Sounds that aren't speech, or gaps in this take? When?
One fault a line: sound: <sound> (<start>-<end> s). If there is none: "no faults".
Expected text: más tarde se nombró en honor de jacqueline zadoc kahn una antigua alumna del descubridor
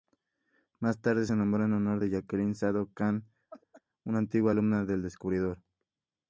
sound: laugh (3.5-3.8 s)